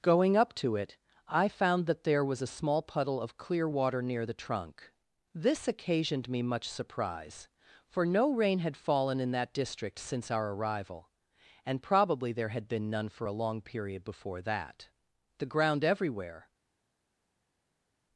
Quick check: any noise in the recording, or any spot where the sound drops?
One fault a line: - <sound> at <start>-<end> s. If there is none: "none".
none